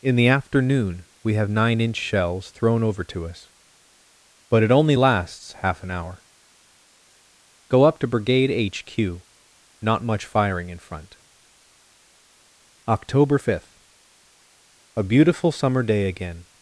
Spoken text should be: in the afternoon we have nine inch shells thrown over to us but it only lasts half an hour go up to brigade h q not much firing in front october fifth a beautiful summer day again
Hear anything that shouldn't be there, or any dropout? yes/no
no